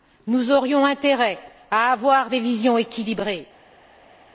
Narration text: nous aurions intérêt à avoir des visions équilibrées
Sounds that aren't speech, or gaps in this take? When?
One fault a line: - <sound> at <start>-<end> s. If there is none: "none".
none